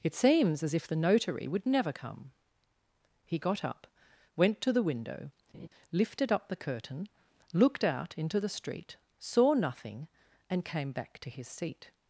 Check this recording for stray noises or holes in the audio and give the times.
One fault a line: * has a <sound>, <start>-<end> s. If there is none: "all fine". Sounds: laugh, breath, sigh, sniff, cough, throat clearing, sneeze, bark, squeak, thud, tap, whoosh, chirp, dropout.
* has a laugh, 5.5-5.7 s